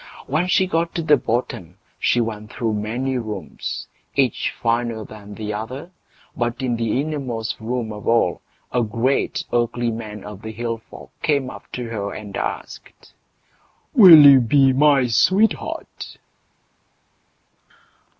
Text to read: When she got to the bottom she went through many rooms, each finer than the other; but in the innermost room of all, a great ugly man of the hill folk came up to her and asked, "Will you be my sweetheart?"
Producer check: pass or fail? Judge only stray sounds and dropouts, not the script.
pass